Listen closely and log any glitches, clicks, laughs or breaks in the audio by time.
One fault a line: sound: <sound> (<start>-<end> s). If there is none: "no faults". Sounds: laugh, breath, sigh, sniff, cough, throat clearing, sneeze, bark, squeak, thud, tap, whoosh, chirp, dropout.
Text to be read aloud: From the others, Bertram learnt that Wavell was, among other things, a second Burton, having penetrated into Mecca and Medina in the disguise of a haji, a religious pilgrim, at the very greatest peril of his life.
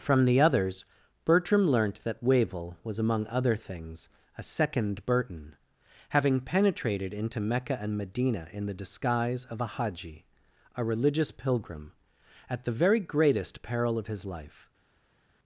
no faults